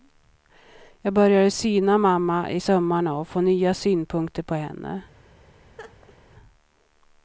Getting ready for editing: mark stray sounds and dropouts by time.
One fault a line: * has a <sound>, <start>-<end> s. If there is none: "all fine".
* has a laugh, 5.8-6.2 s